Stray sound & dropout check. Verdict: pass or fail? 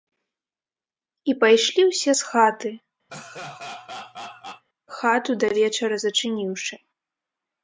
fail